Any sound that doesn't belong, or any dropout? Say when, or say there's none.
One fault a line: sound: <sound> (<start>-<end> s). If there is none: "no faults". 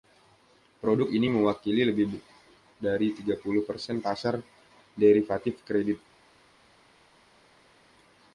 no faults